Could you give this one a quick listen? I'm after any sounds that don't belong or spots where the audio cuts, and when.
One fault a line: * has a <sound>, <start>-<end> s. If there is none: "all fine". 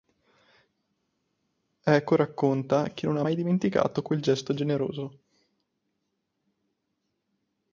all fine